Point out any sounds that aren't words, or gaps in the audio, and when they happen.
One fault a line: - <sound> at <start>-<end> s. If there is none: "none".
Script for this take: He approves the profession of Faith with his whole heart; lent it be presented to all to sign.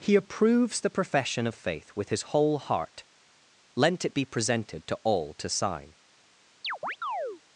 - chirp at 6.6-7.4 s